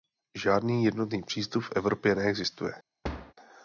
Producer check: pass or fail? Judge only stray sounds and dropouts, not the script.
fail